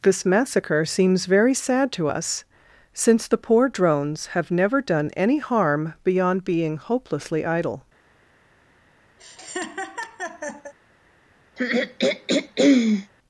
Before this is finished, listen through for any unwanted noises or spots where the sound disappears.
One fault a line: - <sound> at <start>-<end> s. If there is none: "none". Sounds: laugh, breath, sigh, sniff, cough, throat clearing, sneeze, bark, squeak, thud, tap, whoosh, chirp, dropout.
- laugh at 9.2-10.7 s
- throat clearing at 11.6-13.1 s